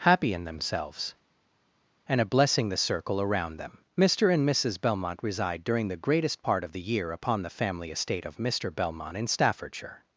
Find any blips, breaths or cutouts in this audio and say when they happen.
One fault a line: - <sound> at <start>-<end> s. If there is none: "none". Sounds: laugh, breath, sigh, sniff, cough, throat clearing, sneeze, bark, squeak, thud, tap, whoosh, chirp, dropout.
none